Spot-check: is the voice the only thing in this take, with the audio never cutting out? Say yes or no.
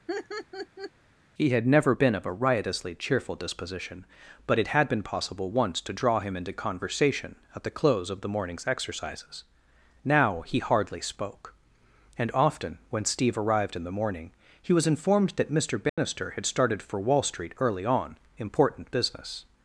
no